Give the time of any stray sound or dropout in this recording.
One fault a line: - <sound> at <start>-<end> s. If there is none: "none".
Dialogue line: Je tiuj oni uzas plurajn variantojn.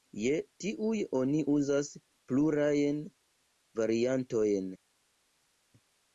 none